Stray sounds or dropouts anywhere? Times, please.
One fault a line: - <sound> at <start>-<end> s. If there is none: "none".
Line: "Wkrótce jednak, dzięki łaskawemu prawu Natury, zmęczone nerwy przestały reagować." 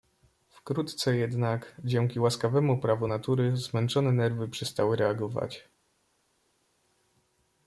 none